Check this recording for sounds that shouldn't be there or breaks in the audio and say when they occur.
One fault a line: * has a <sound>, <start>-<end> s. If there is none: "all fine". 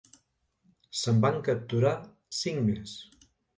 all fine